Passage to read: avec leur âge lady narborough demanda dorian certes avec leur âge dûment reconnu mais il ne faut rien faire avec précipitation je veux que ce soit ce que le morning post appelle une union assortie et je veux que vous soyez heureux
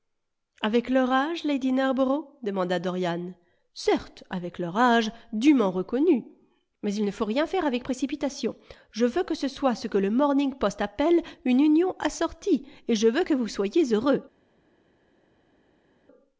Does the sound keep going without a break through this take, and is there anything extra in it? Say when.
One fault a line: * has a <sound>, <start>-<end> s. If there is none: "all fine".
all fine